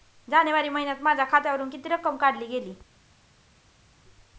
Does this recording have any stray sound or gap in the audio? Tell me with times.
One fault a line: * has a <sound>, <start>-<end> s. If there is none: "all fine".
all fine